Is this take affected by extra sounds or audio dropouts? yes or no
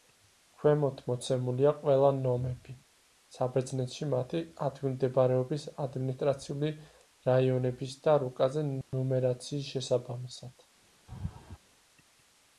yes